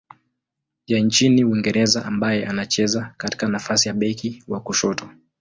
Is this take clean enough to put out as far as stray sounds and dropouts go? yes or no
yes